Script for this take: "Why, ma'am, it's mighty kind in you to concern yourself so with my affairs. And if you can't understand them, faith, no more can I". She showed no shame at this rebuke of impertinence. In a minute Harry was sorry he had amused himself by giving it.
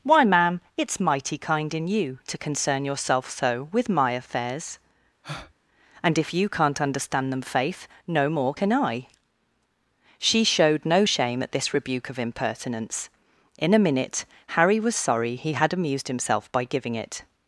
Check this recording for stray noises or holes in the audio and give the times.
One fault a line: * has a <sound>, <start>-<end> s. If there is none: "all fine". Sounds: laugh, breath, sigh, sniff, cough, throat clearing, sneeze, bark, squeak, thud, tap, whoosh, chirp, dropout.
* has a breath, 5.2-5.5 s